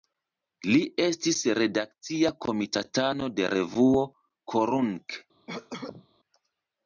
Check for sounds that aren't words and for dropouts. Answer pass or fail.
fail